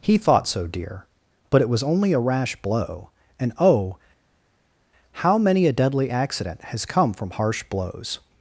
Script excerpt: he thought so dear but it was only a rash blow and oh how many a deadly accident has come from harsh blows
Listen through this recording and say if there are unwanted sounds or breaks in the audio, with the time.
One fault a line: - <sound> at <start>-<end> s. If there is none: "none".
none